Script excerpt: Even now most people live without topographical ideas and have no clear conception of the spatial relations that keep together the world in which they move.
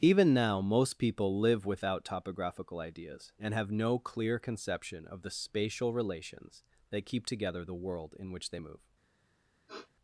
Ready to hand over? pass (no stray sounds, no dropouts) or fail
fail